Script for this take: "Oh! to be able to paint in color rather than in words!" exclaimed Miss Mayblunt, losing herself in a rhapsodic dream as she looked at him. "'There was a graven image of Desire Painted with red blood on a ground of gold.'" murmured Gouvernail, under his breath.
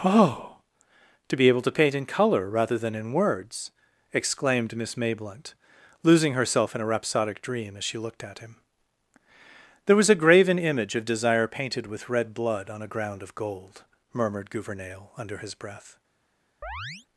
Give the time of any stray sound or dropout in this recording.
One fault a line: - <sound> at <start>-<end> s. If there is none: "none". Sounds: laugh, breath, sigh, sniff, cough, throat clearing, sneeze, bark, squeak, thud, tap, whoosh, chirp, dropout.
- chirp at 16.6-17.1 s